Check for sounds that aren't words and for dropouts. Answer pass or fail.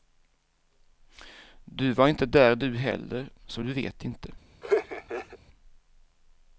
fail